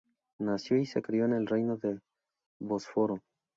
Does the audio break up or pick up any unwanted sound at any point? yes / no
no